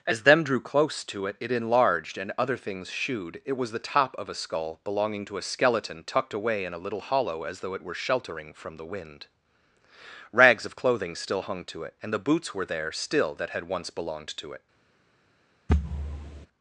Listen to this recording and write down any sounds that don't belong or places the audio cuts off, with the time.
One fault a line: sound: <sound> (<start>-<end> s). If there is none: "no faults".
sound: thud (15.7-16.5 s)